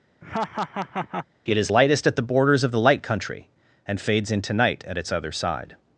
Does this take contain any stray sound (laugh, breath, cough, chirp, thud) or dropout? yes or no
yes